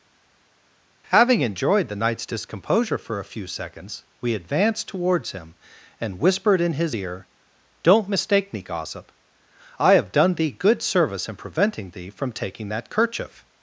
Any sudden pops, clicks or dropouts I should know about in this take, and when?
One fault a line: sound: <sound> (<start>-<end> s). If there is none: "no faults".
no faults